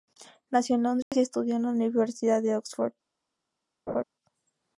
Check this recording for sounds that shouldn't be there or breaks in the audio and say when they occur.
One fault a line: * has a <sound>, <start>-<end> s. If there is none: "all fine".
* has a dropout, 1.0-1.1 s
* has a laugh, 3.9-4.0 s